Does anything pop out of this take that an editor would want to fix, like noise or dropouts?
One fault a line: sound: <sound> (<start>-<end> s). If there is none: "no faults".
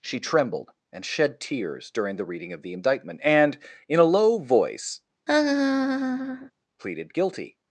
sound: laugh (5.3-6.5 s)